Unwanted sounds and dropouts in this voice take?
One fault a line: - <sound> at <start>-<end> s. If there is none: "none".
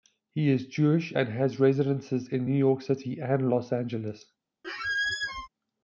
- squeak at 4.6-5.5 s